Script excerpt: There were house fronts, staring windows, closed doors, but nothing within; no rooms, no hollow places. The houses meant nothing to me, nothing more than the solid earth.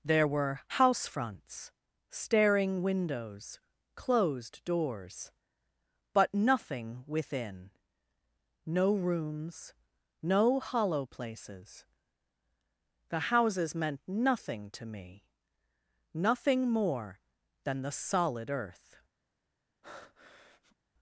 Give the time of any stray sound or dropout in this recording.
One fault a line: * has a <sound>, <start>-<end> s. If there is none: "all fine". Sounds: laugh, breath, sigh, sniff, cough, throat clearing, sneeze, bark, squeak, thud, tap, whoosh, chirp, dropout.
* has a breath, 19.8-20.8 s